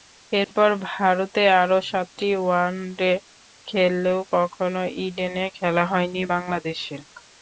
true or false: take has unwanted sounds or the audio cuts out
true